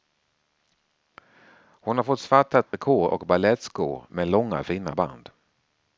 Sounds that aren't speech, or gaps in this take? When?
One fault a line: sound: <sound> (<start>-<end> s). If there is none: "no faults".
sound: dropout (2.7-2.7 s)